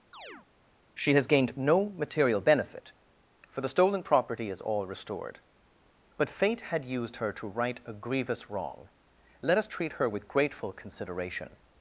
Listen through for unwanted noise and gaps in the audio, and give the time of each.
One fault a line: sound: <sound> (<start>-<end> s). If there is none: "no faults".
sound: chirp (0.1-0.5 s)